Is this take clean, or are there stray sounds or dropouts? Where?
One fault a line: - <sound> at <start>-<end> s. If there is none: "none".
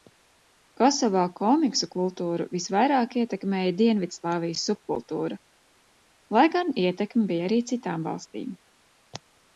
none